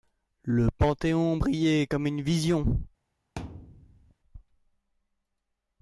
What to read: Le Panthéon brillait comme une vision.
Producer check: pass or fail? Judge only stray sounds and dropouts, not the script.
fail